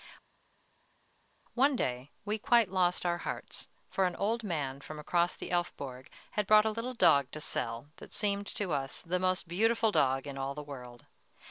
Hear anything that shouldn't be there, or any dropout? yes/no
no